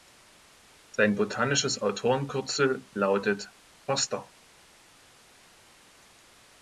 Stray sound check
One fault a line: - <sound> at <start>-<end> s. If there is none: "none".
none